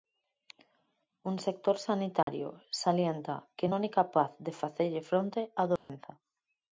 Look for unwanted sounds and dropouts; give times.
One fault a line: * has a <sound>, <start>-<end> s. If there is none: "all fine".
* has a dropout, 2.2-2.3 s
* has a dropout, 5.8-5.9 s